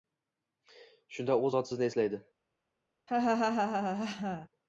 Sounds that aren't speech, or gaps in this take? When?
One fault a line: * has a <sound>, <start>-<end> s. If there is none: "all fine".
* has a laugh, 3.1-4.5 s